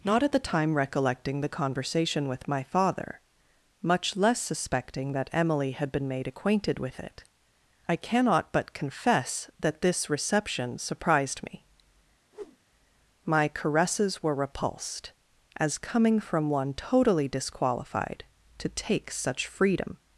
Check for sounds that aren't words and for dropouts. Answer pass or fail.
fail